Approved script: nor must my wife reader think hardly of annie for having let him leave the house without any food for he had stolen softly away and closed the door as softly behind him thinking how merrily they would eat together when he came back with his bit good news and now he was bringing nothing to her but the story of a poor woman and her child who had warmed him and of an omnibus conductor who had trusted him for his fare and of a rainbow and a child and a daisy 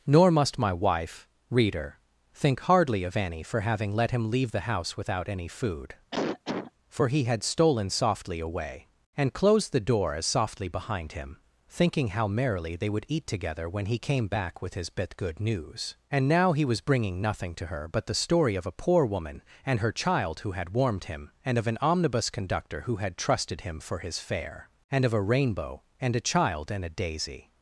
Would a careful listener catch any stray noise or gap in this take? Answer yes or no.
yes